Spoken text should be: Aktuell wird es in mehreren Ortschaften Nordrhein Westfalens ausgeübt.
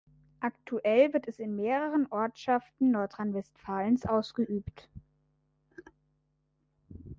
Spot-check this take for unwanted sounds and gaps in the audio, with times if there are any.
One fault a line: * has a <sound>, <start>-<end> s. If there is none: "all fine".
all fine